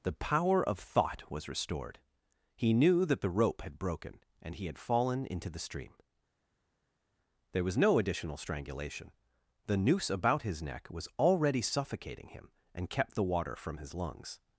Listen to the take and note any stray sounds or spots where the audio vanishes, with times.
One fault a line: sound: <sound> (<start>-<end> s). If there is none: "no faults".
no faults